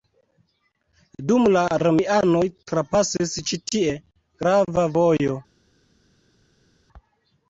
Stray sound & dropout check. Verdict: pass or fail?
pass